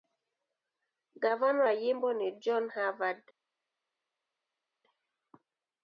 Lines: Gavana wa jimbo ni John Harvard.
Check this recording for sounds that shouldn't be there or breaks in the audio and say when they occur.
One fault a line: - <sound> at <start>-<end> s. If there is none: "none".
none